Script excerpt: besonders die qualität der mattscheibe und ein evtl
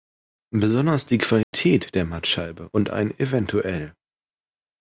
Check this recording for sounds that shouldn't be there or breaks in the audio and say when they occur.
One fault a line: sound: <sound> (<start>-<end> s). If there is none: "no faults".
sound: dropout (1.4-1.5 s)